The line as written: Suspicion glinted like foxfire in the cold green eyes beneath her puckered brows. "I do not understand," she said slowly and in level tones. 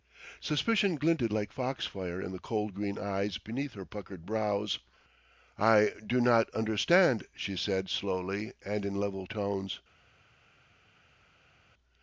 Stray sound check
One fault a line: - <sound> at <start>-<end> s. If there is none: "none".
none